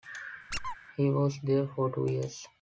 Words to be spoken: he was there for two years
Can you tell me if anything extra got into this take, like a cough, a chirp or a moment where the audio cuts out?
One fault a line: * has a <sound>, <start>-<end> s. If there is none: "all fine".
* has a squeak, 0.5-0.8 s